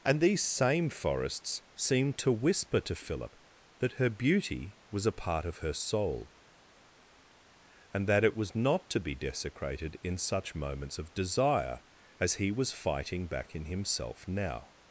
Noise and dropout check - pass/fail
pass